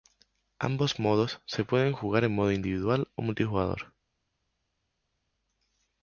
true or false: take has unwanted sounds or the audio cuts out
false